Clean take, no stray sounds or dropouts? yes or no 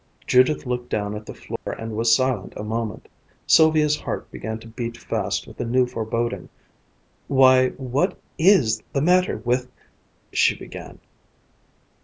no